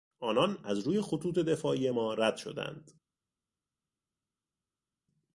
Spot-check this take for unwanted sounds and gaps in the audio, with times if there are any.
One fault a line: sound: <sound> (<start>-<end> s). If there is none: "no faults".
no faults